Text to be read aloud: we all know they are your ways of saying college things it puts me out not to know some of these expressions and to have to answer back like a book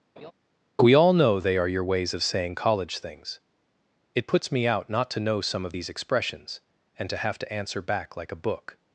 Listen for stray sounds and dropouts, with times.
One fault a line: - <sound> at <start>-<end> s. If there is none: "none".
- laugh at 0.2-0.3 s